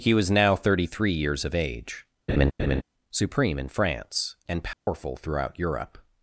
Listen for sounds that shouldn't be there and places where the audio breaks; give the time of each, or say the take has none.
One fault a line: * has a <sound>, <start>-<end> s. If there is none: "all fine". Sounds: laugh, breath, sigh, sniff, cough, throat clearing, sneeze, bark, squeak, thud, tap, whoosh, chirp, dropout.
* has a laugh, 2.3-2.8 s
* has a dropout, 4.7-4.9 s